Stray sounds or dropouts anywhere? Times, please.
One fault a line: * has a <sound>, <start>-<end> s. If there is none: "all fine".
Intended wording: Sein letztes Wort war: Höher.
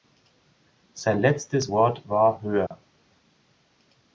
* has a dropout, 2.7-2.7 s